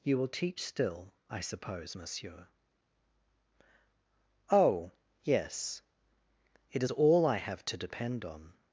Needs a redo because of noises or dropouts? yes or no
no